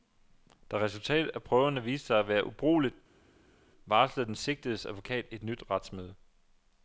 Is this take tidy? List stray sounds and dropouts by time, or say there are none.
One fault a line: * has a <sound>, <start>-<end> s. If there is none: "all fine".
all fine